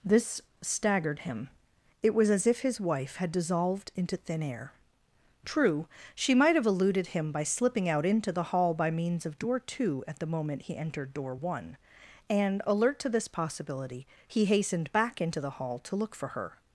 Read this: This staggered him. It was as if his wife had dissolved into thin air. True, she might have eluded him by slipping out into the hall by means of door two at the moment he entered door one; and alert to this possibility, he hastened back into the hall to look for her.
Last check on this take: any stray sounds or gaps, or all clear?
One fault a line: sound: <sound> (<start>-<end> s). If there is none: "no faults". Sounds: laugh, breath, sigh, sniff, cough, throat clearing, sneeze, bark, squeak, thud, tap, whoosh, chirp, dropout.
no faults